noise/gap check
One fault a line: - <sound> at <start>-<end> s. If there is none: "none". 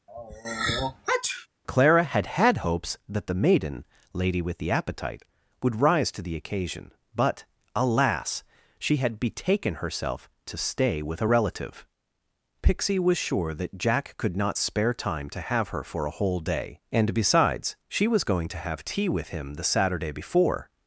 - sneeze at 0.1-1.5 s